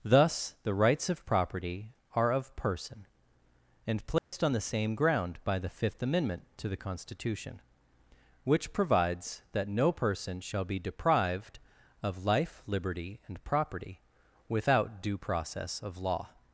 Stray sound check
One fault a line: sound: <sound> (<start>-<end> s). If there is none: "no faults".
sound: dropout (4.2-4.3 s)